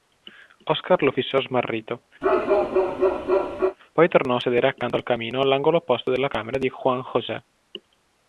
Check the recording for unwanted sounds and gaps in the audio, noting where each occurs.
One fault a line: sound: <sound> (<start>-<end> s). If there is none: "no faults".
sound: bark (2.2-3.8 s)